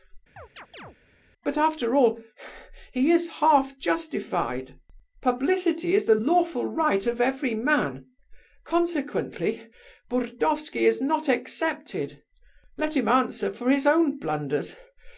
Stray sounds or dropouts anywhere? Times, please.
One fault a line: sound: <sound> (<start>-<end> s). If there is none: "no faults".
sound: chirp (0.4-1.0 s)